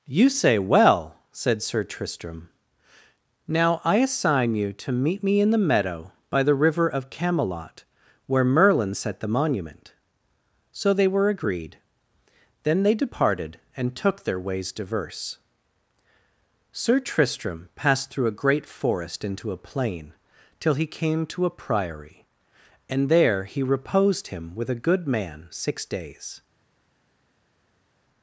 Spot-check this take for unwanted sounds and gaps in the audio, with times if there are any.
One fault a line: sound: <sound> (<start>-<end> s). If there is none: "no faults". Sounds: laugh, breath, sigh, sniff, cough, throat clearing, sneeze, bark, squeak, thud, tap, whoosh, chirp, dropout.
no faults